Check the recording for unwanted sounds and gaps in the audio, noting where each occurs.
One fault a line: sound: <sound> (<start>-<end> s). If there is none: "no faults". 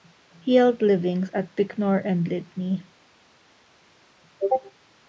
no faults